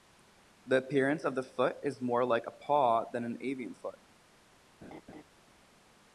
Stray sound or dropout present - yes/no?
yes